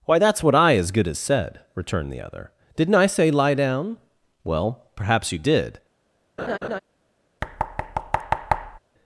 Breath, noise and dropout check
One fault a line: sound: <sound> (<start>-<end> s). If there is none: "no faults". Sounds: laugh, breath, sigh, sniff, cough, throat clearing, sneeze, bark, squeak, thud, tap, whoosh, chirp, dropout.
sound: laugh (6.4-6.8 s)
sound: thud (7.4-8.8 s)